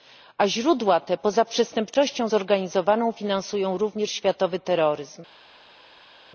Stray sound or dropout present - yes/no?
no